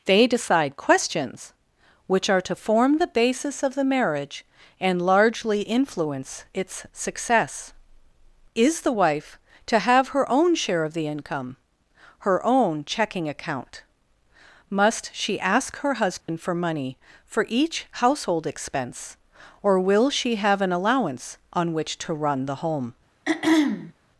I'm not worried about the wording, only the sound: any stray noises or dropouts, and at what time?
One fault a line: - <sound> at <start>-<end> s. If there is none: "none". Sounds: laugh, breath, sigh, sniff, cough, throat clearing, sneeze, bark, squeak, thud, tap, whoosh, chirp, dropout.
- dropout at 16.2-16.3 s
- throat clearing at 23.3-23.9 s